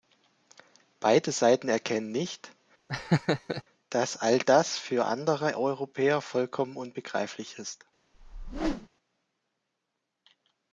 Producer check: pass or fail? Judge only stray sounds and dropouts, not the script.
fail